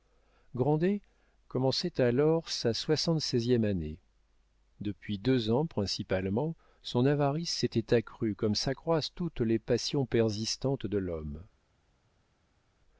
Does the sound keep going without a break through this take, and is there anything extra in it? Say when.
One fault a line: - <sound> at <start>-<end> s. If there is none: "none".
none